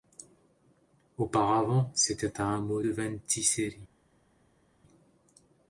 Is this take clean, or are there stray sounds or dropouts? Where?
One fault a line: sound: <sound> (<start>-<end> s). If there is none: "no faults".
no faults